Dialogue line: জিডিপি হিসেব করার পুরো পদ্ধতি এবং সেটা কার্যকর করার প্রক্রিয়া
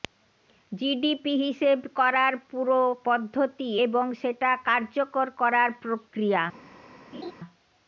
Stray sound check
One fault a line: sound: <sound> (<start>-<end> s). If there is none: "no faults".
sound: laugh (7.1-7.3 s)